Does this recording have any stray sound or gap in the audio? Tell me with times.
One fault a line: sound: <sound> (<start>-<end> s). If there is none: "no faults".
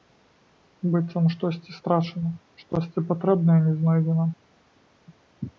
no faults